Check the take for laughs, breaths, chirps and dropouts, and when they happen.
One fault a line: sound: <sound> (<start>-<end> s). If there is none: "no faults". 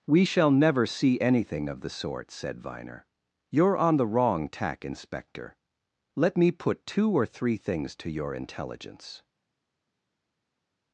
no faults